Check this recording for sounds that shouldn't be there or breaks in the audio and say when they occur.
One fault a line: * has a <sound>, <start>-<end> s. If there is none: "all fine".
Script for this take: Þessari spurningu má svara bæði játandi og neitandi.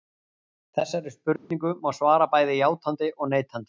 * has a dropout, 1.4-1.5 s